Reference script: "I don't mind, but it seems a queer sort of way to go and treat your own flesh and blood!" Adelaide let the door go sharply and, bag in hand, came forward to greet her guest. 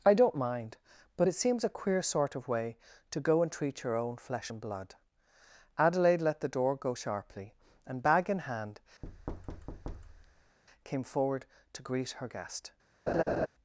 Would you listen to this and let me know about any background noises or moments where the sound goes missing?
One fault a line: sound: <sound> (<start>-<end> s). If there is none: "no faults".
sound: thud (9.0-10.6 s)
sound: laugh (13.1-13.5 s)